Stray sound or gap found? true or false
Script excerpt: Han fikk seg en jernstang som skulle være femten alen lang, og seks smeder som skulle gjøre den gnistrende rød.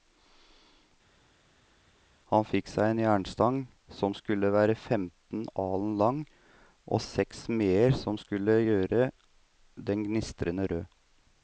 false